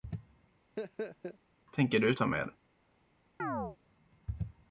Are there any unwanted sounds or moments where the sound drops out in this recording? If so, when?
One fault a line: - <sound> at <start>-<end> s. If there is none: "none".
- laugh at 0.8-1.4 s
- chirp at 3.4-3.8 s